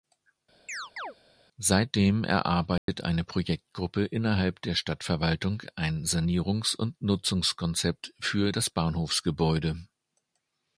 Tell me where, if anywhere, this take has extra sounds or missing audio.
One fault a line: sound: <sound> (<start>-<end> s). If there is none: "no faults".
sound: chirp (0.7-1.1 s)
sound: dropout (2.8-2.9 s)